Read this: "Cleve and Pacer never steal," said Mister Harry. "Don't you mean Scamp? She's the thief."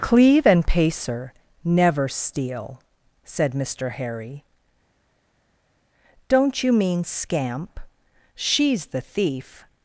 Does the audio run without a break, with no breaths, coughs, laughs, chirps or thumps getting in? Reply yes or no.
yes